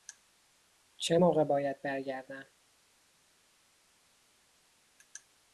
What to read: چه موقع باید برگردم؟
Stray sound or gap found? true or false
false